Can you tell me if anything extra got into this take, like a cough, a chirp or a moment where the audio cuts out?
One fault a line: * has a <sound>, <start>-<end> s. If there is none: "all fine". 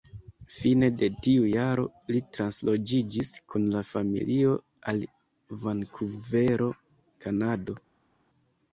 all fine